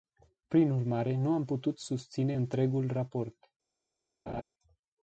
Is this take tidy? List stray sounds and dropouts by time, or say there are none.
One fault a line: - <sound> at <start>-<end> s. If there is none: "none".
- laugh at 4.3-4.4 s